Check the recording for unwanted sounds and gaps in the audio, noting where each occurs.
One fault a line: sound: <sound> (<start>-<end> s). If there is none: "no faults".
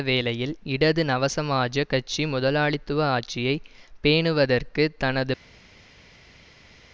no faults